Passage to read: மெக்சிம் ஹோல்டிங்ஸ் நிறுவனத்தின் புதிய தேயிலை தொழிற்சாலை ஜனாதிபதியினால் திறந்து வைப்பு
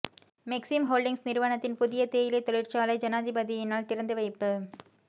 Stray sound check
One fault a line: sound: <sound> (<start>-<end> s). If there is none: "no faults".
no faults